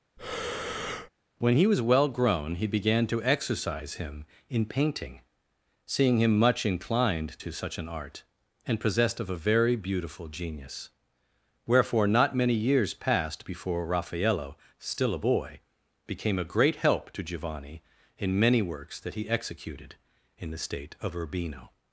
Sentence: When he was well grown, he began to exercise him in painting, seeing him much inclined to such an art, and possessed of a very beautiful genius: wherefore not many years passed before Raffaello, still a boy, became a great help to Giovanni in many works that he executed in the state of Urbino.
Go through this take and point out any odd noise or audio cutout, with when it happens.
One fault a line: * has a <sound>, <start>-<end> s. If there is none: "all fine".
* has a breath, 0.2-1.1 s